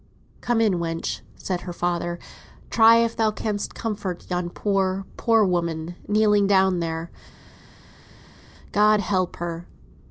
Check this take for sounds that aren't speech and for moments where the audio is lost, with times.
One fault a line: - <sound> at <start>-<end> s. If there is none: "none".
none